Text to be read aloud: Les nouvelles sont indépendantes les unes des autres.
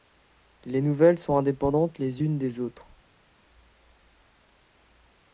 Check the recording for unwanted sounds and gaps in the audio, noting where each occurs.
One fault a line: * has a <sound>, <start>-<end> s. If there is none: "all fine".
all fine